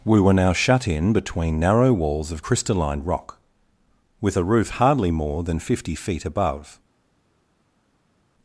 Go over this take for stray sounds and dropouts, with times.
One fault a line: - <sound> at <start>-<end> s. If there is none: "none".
none